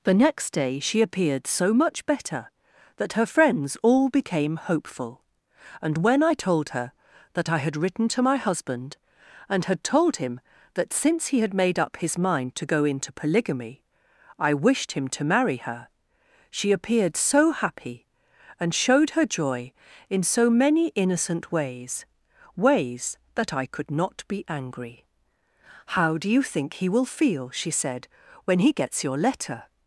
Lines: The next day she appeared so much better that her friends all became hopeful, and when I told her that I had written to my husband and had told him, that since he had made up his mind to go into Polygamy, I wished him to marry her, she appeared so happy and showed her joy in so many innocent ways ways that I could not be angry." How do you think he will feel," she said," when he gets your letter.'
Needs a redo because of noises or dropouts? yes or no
no